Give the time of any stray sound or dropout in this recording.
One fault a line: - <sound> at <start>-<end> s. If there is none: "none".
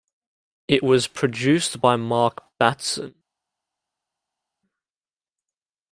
none